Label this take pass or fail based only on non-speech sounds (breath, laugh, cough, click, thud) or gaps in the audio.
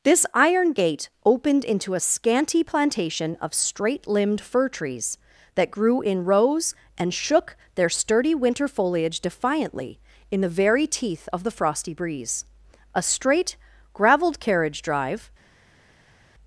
pass